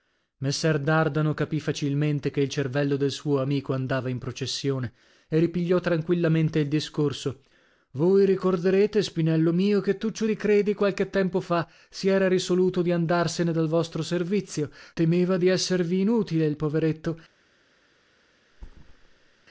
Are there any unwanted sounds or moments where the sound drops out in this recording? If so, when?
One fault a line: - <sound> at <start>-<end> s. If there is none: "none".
- thud at 18.5-19.5 s